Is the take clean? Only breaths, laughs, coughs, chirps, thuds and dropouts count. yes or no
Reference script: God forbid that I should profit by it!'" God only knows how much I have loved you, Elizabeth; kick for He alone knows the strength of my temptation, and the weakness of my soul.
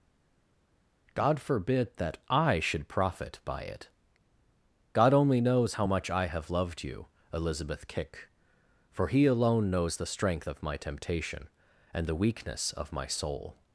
yes